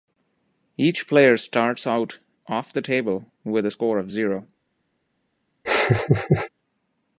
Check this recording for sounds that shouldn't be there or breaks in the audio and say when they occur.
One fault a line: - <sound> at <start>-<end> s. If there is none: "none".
- laugh at 5.6-6.5 s